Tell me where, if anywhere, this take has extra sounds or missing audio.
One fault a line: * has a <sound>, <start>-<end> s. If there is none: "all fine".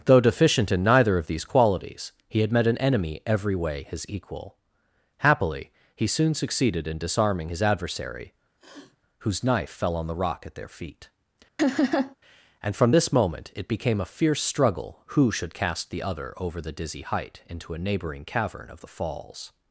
* has a sniff, 8.6-9.0 s
* has a laugh, 11.6-12.2 s